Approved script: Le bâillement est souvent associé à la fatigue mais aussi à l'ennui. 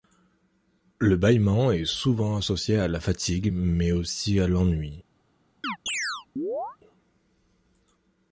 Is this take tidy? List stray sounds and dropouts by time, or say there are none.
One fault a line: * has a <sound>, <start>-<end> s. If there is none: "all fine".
* has a chirp, 5.6-6.8 s